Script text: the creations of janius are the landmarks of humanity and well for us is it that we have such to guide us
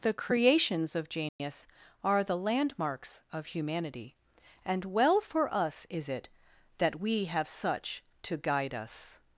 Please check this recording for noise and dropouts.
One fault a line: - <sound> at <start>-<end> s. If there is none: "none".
- dropout at 1.3-1.4 s